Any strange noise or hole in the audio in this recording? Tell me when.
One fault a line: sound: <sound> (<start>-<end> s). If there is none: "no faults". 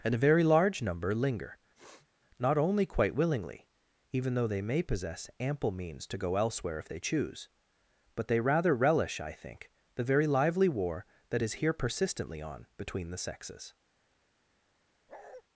sound: sniff (1.7-2.1 s)
sound: bark (15.1-15.4 s)